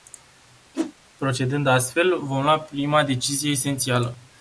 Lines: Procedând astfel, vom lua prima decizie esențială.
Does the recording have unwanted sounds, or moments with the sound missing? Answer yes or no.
yes